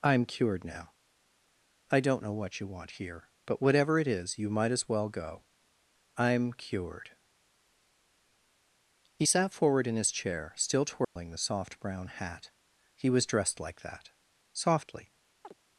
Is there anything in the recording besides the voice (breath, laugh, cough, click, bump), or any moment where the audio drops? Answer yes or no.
yes